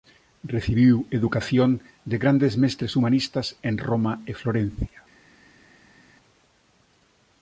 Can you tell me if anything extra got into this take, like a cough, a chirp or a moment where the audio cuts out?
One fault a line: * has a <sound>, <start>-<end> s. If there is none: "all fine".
all fine